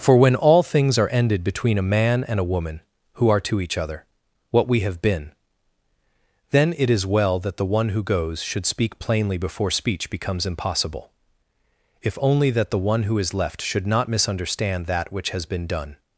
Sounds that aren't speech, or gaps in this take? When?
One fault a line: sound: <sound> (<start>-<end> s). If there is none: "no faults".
no faults